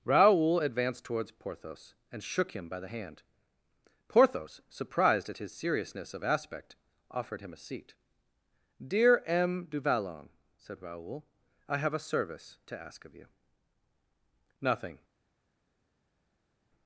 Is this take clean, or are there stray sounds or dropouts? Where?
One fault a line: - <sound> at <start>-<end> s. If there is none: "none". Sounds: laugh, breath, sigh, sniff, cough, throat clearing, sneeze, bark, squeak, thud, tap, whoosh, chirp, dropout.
none